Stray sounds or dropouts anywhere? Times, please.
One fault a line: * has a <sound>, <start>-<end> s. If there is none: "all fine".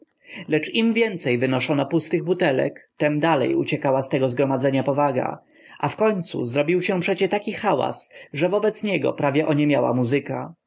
all fine